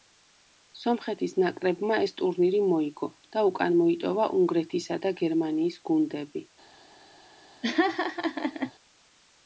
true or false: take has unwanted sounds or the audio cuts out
true